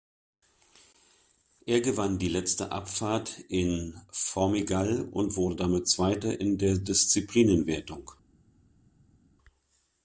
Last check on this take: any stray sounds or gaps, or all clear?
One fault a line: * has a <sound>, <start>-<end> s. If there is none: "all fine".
all fine